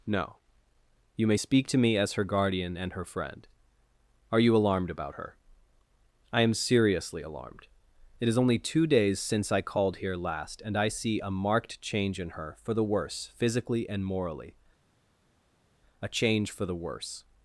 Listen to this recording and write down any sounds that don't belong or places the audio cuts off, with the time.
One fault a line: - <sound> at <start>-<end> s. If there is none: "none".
none